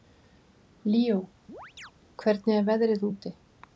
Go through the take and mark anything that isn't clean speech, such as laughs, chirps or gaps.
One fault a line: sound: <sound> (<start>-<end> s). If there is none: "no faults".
sound: chirp (1.5-1.9 s)